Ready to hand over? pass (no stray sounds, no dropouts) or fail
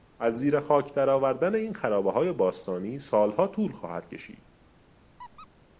fail